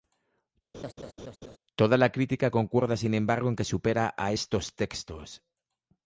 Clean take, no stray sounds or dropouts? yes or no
no